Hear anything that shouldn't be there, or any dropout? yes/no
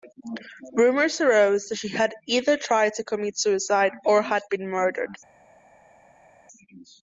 no